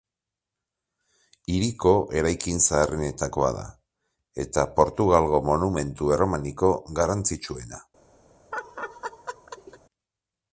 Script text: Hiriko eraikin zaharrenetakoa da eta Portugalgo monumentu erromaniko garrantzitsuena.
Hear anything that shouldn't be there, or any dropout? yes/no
yes